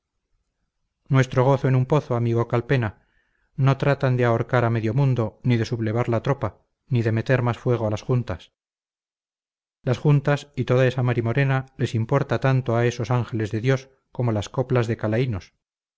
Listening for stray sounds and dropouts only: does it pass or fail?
pass